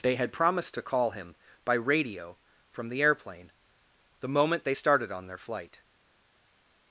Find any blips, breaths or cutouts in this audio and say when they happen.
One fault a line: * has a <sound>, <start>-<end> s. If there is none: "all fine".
all fine